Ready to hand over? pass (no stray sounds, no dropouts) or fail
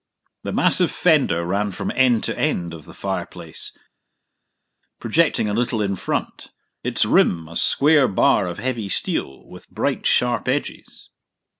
pass